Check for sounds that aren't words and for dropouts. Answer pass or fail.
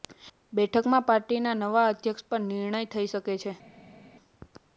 pass